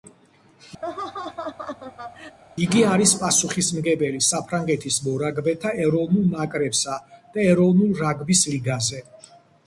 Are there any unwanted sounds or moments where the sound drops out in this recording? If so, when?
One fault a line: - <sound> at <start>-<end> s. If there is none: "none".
- laugh at 0.8-2.4 s